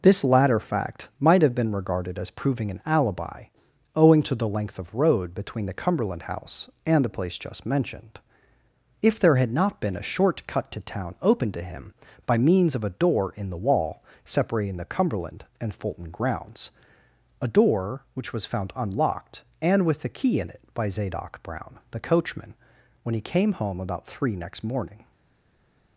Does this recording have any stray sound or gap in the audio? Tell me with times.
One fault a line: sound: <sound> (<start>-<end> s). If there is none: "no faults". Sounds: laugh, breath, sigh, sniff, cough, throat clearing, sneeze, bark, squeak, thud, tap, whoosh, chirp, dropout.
no faults